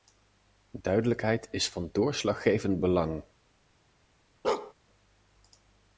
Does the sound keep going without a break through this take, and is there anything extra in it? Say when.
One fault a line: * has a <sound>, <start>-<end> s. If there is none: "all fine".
* has a bark, 4.4-4.7 s